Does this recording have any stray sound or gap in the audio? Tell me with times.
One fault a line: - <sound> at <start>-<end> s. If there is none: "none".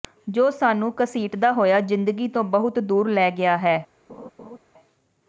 - laugh at 4.1-4.6 s